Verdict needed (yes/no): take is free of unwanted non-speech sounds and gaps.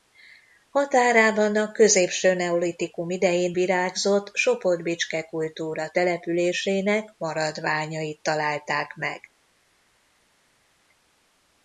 yes